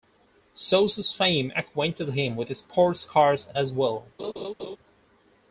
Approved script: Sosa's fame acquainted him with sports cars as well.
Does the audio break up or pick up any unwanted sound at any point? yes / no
yes